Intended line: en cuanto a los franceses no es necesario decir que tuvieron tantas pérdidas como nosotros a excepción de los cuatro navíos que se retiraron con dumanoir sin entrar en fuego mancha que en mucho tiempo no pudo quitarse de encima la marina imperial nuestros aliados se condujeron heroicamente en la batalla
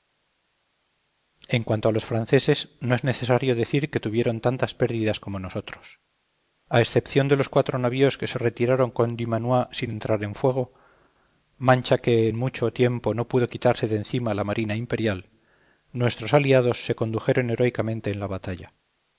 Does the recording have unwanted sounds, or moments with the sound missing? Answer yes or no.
no